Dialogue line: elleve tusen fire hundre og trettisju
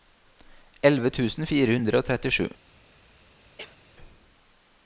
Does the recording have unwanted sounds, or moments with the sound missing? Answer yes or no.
yes